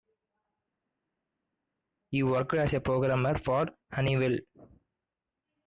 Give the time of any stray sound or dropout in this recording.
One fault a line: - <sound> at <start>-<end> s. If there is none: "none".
none